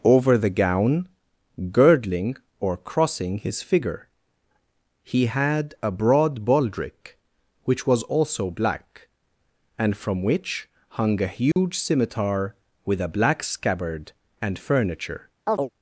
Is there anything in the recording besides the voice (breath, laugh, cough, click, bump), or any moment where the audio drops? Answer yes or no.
yes